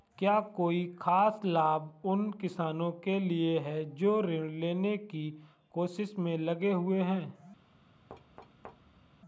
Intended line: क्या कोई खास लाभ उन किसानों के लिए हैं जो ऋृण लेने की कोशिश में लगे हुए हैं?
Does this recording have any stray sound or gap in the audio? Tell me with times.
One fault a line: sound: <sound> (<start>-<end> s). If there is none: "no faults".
sound: thud (8.1-9.2 s)